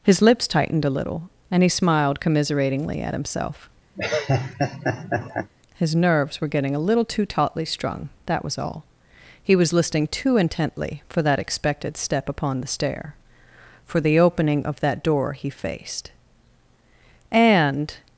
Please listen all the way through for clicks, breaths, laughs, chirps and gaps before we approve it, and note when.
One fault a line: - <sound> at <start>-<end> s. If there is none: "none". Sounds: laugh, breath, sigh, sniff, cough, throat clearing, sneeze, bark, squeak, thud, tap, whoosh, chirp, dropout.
- laugh at 4.0-5.5 s